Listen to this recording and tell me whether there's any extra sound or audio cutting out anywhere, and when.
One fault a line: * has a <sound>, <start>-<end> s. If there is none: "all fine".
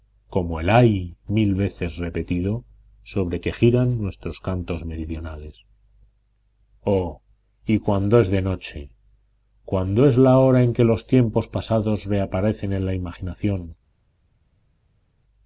all fine